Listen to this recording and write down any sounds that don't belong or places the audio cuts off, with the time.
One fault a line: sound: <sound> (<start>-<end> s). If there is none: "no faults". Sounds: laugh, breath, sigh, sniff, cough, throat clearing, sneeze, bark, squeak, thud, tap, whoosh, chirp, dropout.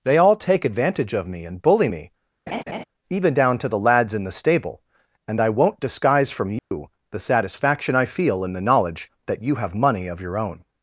sound: laugh (2.5-2.8 s)
sound: dropout (6.6-6.7 s)